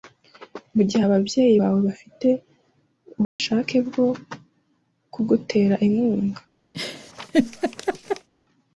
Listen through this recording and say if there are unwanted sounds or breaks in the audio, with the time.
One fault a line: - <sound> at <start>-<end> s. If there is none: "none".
- dropout at 3.2-3.4 s
- laugh at 6.7-8.3 s